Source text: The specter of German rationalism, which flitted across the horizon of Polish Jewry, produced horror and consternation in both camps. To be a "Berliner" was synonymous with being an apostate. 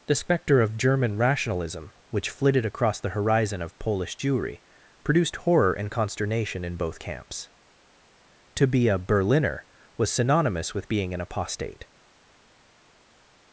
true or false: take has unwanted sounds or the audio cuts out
false